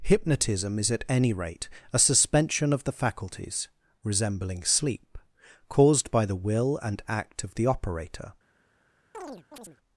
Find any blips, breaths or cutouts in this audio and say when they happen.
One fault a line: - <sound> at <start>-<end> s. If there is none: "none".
- chirp at 9.1-9.8 s